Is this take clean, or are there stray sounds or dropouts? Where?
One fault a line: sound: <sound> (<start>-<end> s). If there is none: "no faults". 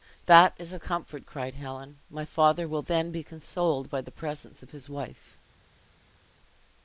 no faults